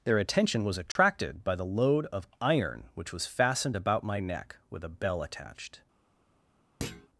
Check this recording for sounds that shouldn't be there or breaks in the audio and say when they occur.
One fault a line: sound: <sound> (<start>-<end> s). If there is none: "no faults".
sound: dropout (0.9-1.0 s)
sound: thud (6.8-7.1 s)